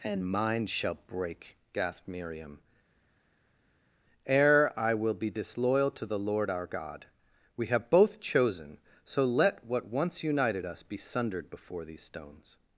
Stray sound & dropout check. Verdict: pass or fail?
pass